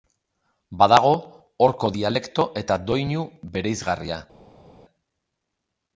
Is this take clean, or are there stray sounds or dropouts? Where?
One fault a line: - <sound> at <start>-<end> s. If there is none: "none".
none